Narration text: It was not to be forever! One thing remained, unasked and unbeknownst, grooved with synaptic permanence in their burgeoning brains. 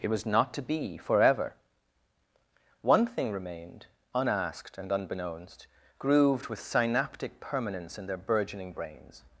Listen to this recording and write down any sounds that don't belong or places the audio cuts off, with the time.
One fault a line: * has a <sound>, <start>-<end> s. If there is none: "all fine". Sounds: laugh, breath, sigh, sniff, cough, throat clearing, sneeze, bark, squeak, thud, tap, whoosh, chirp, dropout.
all fine